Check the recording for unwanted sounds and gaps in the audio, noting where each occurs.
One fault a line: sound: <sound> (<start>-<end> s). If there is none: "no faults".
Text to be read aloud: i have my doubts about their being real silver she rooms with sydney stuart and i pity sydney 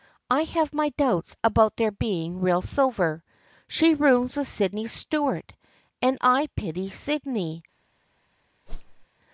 sound: whoosh (8.7-9.1 s)